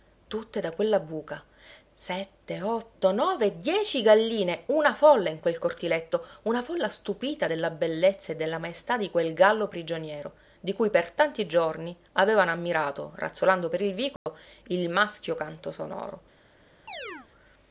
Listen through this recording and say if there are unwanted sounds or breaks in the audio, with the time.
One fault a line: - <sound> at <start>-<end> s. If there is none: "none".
- dropout at 14.2-14.3 s
- chirp at 16.9-17.3 s